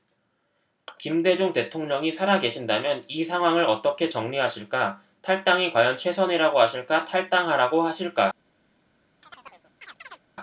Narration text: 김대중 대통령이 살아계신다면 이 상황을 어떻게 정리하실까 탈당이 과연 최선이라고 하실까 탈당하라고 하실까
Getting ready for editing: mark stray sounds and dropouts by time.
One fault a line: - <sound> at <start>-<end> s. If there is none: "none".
- chirp at 9.2-10.2 s